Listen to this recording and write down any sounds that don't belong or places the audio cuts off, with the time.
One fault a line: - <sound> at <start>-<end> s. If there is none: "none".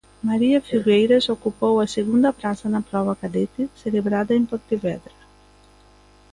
none